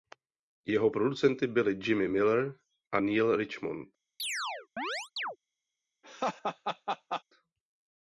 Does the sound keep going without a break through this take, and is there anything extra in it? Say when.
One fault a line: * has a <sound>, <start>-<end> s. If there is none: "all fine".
* has a chirp, 4.2-5.4 s
* has a laugh, 6.0-7.2 s